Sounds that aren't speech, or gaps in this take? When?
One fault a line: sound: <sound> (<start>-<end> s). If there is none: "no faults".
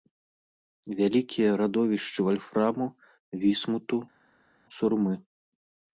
no faults